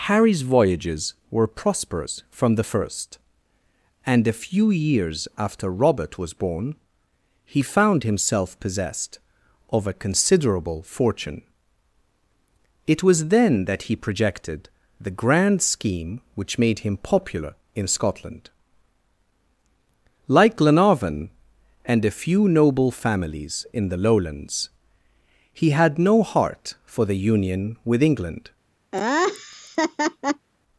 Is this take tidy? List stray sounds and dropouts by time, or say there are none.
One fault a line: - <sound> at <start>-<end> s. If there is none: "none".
- laugh at 28.9-30.5 s